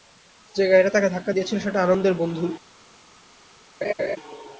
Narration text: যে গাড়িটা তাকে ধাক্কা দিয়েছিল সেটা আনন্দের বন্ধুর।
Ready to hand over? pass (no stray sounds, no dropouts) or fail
fail